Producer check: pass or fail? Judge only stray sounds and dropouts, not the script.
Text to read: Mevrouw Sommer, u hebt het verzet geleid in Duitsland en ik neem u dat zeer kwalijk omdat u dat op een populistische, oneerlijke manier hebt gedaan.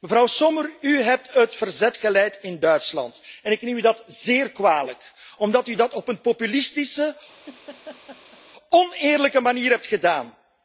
fail